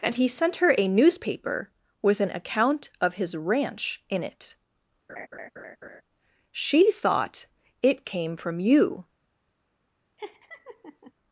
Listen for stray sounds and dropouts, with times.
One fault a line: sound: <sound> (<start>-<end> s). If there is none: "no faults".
sound: laugh (5.1-6.0 s)
sound: laugh (10.2-11.1 s)